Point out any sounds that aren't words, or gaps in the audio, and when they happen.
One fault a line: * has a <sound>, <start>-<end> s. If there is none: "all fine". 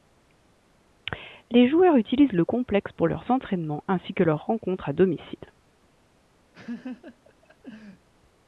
* has a laugh, 6.5-8.1 s